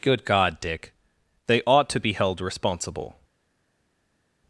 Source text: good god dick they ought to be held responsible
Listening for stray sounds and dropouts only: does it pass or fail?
pass